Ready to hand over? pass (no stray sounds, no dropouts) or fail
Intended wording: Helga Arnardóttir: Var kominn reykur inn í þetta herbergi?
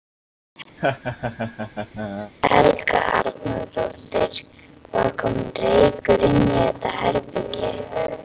fail